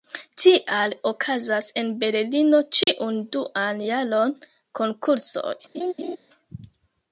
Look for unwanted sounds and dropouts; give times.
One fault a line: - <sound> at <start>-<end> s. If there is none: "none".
- dropout at 2.8-2.9 s
- laugh at 5.7-6.2 s